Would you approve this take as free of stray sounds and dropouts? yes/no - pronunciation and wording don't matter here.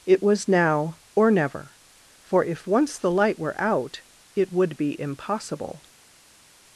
yes